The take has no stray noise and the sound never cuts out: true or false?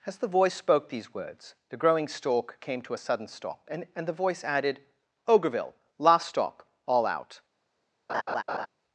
false